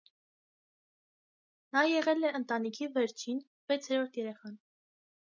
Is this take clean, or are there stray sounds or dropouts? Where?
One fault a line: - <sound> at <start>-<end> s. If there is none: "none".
none